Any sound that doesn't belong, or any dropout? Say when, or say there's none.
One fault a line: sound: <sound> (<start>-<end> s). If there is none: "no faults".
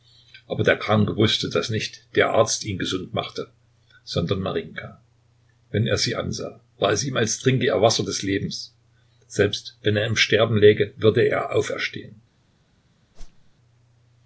sound: whoosh (13.1-13.5 s)